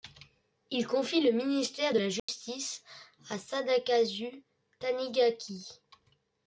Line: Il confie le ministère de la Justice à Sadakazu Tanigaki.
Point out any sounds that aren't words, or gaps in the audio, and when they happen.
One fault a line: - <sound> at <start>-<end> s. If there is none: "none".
- dropout at 2.2-2.3 s